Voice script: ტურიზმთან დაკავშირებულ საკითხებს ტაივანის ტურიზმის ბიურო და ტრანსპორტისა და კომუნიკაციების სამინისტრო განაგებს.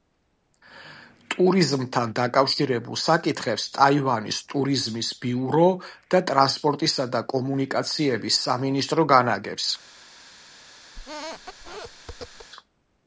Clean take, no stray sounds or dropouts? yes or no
no